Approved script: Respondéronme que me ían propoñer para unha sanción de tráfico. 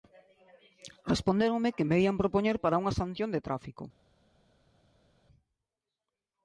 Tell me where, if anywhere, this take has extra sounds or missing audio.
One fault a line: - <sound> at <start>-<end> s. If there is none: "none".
none